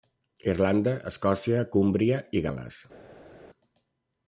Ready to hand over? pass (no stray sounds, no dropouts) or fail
pass